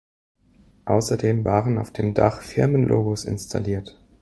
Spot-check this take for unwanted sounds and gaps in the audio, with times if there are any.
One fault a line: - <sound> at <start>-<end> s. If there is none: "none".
none